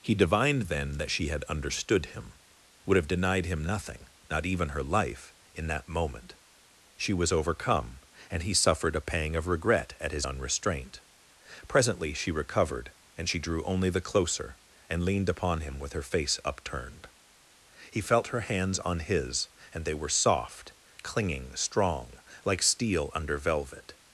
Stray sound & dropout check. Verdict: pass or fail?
pass